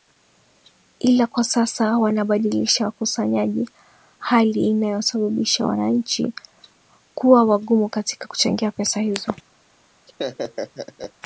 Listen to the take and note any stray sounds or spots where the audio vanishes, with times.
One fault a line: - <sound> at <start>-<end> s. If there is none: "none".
- laugh at 10.1-11.1 s